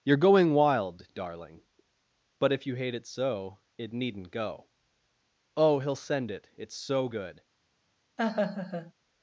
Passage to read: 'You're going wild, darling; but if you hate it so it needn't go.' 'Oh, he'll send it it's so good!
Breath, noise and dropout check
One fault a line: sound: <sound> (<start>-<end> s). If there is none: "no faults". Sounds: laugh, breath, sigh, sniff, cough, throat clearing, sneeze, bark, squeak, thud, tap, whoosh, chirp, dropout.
sound: laugh (8.2-8.9 s)